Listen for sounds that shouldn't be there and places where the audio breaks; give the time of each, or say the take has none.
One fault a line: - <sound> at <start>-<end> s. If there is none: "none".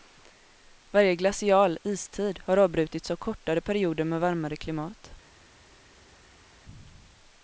none